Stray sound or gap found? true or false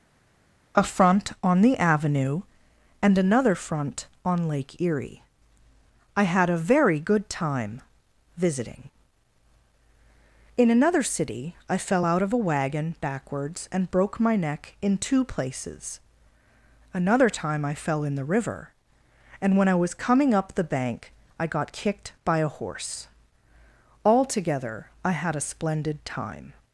false